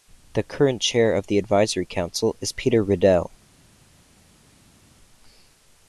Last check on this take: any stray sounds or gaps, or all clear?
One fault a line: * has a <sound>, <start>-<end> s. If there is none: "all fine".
all fine